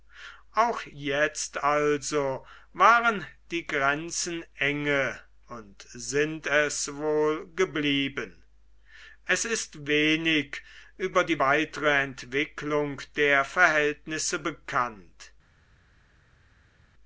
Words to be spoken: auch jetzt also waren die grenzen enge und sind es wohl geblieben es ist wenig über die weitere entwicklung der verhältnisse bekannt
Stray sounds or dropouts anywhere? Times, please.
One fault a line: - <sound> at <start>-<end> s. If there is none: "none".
none